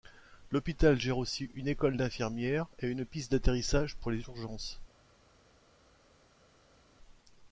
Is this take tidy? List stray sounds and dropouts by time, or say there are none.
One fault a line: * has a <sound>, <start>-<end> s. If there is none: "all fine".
all fine